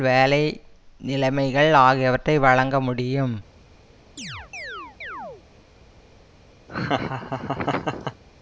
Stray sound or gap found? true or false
true